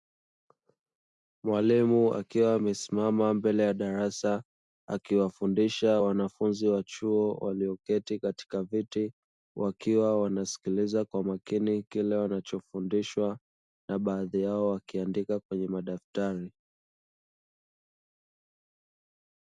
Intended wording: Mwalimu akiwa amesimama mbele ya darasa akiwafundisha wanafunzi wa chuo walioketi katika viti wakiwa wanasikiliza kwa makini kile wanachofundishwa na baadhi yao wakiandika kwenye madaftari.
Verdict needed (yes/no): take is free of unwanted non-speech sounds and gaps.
yes